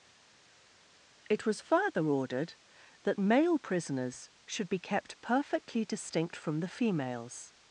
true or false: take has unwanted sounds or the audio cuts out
false